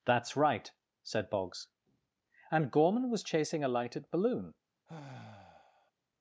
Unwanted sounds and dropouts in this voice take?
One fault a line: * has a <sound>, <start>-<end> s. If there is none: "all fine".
* has a sigh, 4.9-5.9 s